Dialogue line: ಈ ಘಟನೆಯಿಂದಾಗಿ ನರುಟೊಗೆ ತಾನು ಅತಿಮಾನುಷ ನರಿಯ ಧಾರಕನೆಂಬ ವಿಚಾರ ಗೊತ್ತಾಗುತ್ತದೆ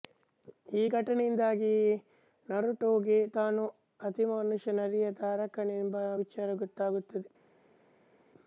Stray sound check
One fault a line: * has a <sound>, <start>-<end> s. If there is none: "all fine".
all fine